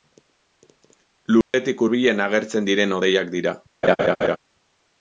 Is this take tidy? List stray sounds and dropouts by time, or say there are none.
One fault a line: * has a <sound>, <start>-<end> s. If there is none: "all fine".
* has a dropout, 1.4-1.5 s
* has a laugh, 3.8-4.4 s